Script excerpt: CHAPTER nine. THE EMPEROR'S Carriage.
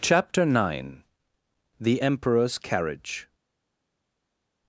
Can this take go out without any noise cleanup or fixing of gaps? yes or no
yes